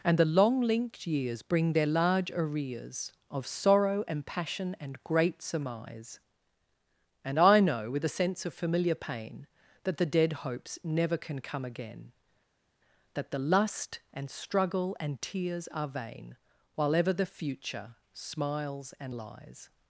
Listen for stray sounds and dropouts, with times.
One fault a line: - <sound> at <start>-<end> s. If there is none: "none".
none